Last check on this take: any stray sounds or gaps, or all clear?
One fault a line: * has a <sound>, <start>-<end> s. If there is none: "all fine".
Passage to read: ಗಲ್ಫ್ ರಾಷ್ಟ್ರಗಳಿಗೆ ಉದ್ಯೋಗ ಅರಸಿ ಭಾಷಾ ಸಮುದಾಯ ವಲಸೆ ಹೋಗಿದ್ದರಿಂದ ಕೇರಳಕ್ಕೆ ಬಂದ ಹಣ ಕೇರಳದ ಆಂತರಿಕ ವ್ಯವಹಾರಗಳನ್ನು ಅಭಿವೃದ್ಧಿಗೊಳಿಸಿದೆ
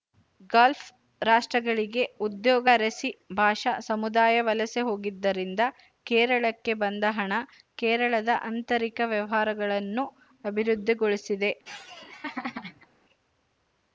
* has a laugh, 11.6-12.9 s